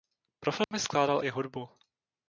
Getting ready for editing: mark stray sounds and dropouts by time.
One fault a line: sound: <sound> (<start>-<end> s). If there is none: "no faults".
sound: dropout (0.6-0.7 s)